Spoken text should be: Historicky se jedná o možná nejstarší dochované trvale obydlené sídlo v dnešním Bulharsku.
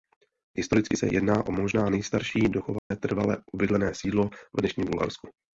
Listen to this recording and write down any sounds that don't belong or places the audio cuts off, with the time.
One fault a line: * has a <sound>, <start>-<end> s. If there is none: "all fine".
* has a dropout, 2.8-2.9 s